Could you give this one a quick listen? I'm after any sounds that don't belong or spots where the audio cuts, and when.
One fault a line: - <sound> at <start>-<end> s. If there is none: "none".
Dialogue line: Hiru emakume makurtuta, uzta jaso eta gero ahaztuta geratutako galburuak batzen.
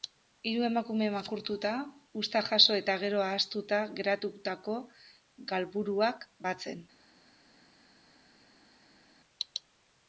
none